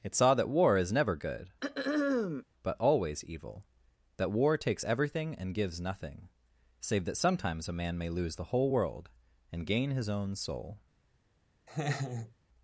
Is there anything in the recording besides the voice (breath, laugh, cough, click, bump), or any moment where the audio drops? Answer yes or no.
yes